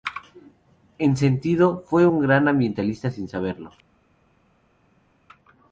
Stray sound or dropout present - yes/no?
no